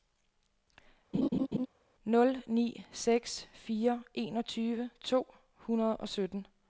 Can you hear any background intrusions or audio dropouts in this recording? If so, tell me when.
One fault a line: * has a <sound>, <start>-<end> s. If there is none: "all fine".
* has a laugh, 1.1-1.7 s